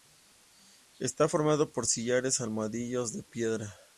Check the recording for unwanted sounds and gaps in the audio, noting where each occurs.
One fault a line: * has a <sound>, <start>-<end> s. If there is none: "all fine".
all fine